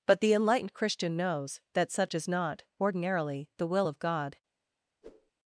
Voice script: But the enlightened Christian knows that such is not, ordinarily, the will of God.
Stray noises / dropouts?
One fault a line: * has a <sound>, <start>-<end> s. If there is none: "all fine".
* has a whoosh, 5.0-5.3 s